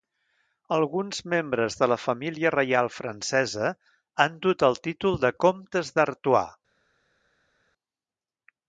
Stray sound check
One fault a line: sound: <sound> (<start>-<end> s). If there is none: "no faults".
no faults